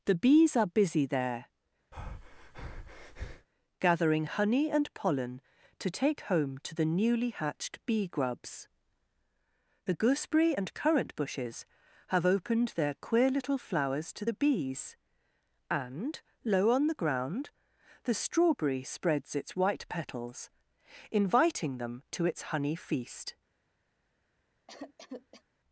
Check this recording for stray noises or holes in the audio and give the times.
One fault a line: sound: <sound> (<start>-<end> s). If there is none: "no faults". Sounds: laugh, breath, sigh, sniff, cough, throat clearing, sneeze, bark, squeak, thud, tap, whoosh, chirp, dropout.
sound: breath (1.9-3.5 s)
sound: cough (24.7-25.4 s)